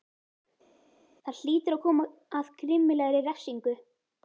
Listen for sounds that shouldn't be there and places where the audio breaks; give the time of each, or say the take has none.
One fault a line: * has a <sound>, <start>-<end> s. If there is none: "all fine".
all fine